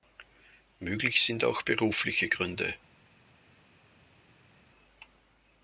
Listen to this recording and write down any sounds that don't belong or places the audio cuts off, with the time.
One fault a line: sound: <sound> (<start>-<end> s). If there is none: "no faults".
no faults